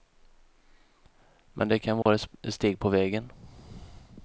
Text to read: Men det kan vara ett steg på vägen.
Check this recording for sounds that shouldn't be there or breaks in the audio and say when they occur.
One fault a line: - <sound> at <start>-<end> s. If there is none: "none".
- dropout at 2.0-2.1 s